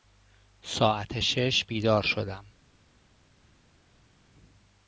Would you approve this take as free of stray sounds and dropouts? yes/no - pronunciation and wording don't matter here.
yes